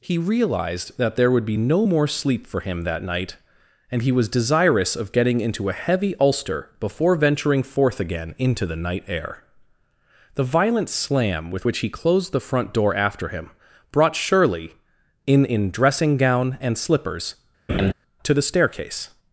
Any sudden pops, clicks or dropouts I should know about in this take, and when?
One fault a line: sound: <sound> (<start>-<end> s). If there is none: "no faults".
sound: laugh (17.7-17.9 s)